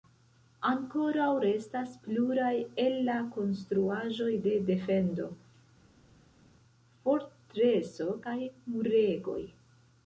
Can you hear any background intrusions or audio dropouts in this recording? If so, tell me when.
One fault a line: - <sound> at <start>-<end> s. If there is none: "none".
none